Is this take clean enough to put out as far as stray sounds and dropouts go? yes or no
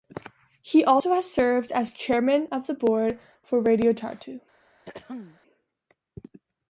no